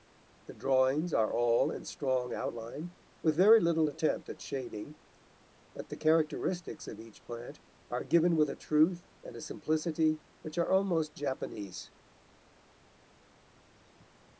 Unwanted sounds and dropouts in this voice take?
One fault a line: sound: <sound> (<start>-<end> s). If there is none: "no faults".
no faults